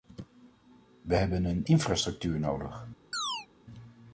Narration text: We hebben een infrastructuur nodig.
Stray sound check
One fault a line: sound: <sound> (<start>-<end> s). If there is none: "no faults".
sound: chirp (3.1-3.5 s)